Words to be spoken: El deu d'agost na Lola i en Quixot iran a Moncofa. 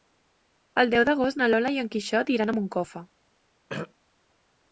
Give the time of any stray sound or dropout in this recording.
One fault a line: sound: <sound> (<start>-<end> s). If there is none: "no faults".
sound: throat clearing (3.7-3.9 s)